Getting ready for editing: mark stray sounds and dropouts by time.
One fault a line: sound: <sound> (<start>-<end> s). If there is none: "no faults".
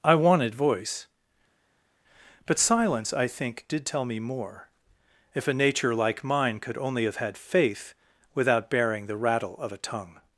no faults